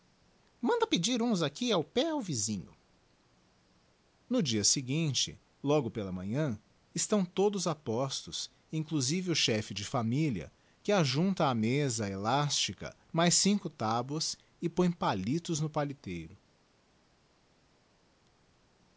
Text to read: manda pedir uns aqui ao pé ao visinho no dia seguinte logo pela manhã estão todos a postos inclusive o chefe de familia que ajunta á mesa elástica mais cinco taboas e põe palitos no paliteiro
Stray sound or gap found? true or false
false